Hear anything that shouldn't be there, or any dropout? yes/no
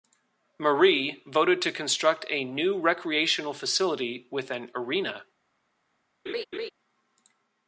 yes